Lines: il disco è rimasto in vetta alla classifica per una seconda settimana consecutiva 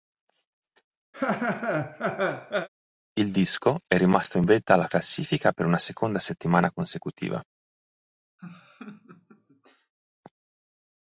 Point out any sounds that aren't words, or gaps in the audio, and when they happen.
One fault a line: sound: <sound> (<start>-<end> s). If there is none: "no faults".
sound: laugh (1.1-2.7 s)
sound: laugh (8.4-9.9 s)